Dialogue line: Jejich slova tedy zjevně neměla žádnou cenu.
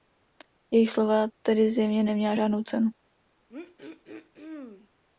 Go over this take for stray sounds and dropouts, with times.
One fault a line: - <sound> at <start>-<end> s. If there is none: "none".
- throat clearing at 3.5-4.9 s